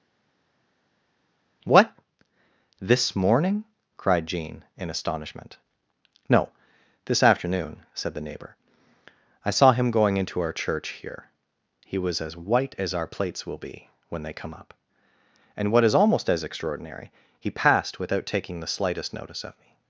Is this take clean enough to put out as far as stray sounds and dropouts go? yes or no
yes